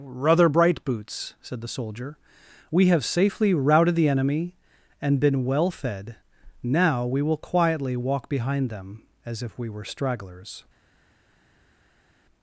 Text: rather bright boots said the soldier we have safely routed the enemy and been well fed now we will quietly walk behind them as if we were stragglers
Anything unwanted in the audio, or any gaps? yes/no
no